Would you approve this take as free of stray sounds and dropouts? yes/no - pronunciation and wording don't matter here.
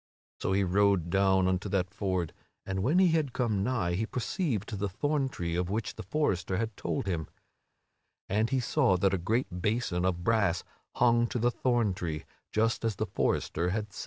yes